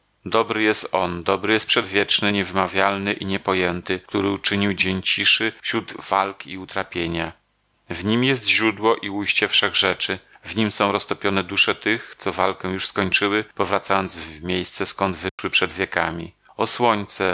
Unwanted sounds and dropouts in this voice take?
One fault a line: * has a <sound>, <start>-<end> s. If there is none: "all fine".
* has a dropout, 15.3-15.4 s